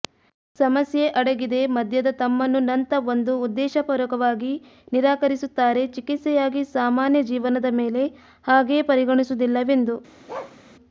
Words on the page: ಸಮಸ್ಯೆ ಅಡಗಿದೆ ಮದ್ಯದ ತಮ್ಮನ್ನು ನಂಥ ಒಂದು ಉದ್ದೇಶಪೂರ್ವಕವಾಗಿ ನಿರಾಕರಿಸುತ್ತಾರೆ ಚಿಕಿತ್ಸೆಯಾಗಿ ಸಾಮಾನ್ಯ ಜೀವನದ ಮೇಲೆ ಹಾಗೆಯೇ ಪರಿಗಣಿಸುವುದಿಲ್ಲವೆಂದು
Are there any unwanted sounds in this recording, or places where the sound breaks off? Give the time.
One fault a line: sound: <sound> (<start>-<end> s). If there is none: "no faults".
sound: bark (10.3-10.6 s)